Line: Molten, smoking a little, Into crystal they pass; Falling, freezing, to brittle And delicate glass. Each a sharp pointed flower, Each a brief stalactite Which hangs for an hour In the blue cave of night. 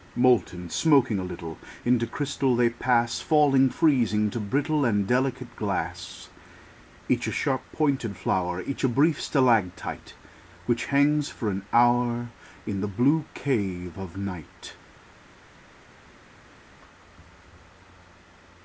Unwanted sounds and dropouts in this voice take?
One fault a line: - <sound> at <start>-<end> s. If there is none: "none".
none